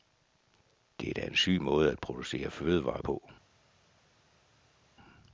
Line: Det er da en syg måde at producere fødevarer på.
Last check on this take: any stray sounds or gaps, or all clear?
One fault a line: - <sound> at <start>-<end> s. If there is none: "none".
none